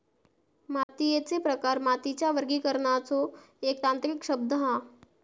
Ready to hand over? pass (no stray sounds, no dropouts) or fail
fail